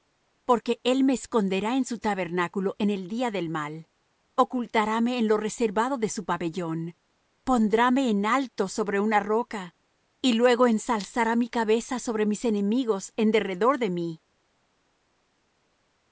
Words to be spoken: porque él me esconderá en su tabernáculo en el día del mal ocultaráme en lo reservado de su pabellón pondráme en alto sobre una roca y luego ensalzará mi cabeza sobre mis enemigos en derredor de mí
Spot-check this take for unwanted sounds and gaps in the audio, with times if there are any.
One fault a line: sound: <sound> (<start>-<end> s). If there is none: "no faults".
no faults